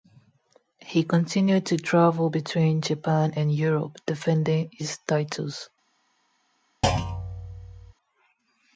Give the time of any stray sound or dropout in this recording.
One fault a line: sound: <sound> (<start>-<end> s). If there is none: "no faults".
sound: thud (6.8-7.9 s)